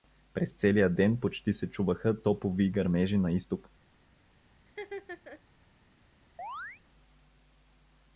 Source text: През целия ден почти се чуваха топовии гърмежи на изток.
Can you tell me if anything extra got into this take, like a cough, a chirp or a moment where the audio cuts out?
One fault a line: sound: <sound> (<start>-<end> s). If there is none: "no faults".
sound: laugh (4.7-5.4 s)
sound: chirp (6.4-6.8 s)